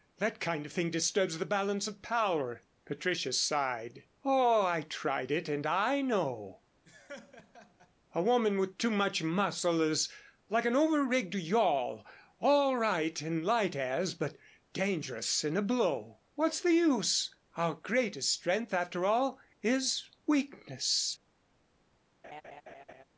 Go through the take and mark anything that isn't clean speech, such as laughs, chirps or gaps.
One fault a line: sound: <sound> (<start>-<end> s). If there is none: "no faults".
sound: laugh (6.8-7.9 s)
sound: laugh (22.2-23.0 s)